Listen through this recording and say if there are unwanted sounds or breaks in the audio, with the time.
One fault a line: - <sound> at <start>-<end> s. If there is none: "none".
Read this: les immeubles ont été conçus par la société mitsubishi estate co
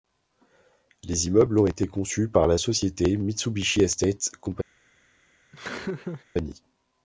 - laugh at 5.5-6.3 s